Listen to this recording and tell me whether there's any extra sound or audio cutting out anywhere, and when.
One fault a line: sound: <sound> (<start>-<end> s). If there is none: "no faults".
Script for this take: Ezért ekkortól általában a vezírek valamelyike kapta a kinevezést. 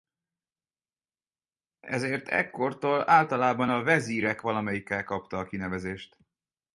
no faults